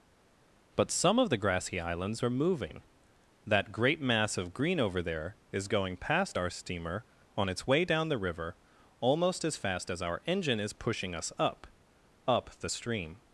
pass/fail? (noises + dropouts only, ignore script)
pass